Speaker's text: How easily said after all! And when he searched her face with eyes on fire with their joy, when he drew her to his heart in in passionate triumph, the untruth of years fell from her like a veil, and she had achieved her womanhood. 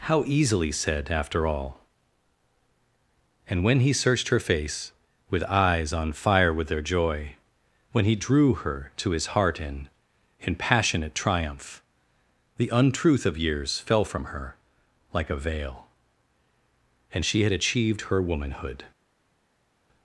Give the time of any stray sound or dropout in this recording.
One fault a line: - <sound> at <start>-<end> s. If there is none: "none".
none